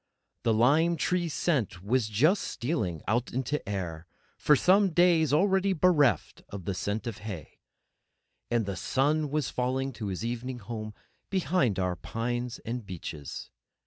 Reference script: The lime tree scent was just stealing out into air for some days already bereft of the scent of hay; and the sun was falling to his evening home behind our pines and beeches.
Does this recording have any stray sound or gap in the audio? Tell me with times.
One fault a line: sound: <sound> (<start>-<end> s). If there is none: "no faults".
no faults